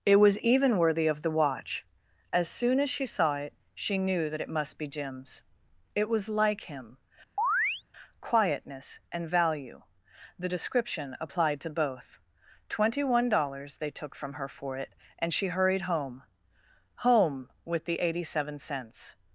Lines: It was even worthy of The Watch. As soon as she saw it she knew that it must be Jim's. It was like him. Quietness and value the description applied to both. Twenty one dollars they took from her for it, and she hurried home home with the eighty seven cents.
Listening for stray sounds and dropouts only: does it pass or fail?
fail